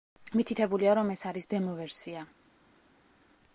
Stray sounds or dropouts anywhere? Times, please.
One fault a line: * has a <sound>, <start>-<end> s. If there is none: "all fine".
all fine